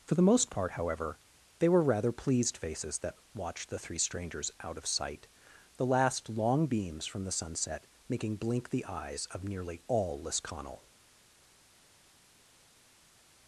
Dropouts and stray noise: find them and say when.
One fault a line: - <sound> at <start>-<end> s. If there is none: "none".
none